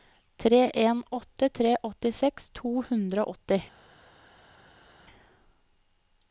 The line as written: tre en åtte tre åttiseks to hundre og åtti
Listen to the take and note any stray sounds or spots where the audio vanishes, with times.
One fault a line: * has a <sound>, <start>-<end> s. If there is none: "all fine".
all fine